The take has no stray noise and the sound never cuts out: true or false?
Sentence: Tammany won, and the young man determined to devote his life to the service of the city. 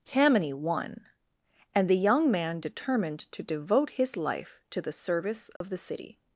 false